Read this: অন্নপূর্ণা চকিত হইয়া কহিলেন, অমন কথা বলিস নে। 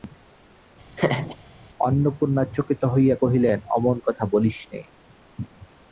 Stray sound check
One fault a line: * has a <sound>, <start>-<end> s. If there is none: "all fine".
* has a laugh, 1.0-1.4 s